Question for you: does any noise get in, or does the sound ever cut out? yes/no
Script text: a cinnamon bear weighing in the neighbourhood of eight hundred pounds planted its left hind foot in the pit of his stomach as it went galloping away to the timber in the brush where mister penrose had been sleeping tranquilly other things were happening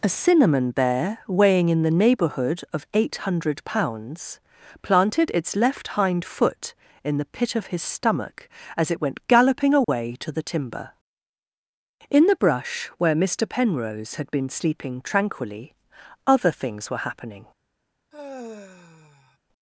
yes